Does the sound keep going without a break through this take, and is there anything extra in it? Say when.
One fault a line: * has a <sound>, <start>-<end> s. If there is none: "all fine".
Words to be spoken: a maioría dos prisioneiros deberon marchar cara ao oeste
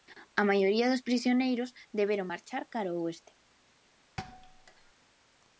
* has a thud, 4.2-4.9 s